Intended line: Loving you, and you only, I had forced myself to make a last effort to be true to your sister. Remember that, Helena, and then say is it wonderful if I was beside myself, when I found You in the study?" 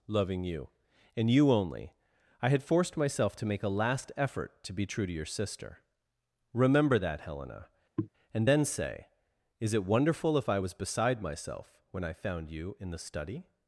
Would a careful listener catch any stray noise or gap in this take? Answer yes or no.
yes